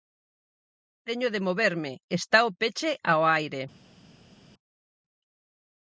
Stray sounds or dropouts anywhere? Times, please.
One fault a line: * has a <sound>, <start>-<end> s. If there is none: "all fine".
all fine